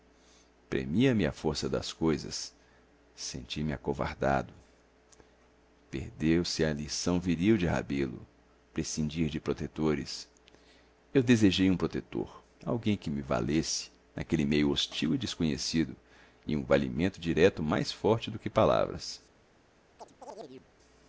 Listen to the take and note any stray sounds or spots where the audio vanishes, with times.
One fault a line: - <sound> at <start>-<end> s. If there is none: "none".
- chirp at 20.0-20.7 s